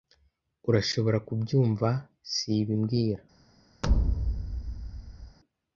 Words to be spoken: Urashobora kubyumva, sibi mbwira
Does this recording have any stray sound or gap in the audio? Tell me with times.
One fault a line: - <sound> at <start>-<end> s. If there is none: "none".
- thud at 3.8-5.4 s